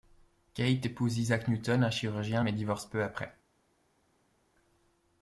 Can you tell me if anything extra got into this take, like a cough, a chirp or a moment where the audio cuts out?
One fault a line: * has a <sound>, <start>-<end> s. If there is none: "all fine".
all fine